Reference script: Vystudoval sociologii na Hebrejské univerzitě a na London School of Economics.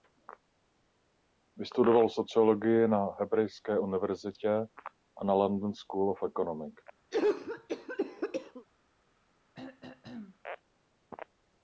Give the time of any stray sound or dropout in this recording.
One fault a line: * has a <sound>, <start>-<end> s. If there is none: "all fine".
* has a cough, 7.1-8.7 s
* has a throat clearing, 9.5-10.4 s